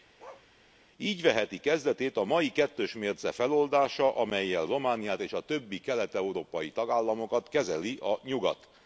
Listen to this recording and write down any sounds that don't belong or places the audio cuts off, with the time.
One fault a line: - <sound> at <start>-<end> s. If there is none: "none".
- bark at 0.2-0.5 s